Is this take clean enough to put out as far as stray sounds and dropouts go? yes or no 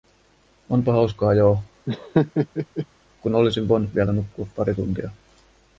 no